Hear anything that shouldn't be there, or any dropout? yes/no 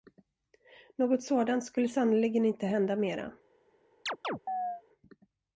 yes